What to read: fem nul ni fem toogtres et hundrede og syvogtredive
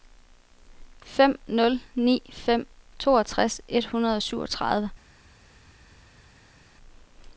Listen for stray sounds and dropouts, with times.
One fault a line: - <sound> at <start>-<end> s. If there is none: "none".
none